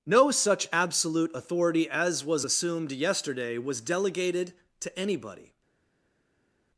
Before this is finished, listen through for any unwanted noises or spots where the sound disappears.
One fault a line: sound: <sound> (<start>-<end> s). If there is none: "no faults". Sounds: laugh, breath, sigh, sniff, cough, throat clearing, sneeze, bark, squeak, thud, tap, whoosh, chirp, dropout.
no faults